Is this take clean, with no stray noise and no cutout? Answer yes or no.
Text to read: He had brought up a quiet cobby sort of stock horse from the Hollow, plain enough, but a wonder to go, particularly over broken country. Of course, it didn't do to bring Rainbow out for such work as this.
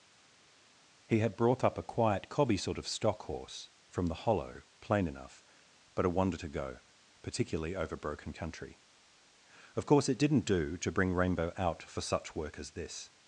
yes